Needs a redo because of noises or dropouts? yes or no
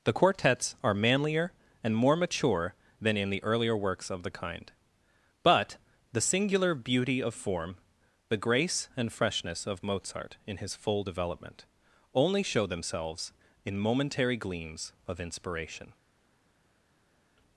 no